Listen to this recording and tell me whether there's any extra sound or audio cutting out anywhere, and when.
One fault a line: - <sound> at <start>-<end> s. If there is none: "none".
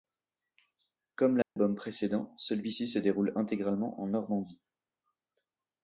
- dropout at 1.4-1.6 s